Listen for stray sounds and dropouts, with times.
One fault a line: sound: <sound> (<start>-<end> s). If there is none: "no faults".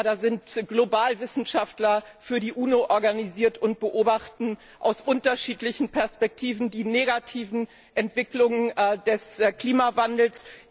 no faults